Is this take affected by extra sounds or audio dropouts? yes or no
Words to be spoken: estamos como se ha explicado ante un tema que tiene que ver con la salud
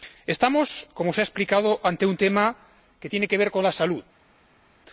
no